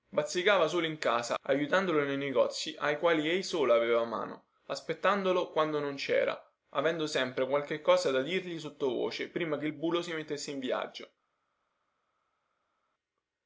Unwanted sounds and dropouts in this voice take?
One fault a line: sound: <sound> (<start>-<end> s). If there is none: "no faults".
no faults